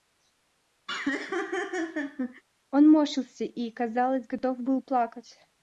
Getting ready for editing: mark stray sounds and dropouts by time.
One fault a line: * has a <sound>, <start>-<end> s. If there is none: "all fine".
* has a laugh, 0.9-2.4 s